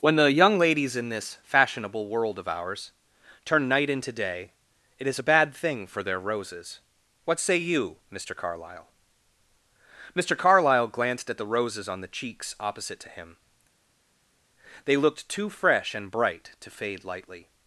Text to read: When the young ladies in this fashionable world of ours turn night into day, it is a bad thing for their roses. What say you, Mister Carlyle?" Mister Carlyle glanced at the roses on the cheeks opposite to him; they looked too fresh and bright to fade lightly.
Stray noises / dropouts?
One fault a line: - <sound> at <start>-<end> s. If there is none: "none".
none